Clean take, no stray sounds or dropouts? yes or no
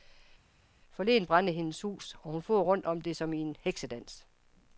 yes